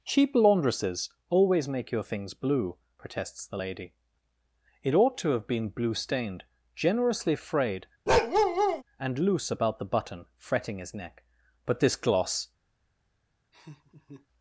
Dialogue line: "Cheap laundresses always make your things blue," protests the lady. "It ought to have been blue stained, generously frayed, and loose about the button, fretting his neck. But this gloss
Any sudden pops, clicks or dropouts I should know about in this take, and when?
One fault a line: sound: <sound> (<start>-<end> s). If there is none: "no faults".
sound: bark (8.1-8.8 s)
sound: laugh (13.5-14.3 s)